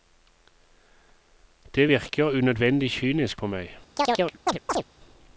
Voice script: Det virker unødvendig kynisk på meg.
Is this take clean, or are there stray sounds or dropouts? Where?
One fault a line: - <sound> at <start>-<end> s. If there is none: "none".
- chirp at 4.0-4.8 s